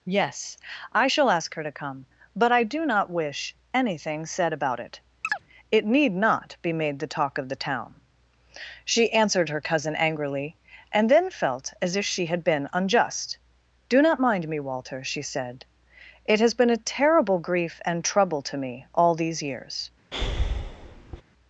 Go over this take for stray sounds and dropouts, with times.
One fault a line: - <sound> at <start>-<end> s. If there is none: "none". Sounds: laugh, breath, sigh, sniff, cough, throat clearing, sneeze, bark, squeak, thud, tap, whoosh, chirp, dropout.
- chirp at 5.2-5.4 s
- breath at 20.1-21.2 s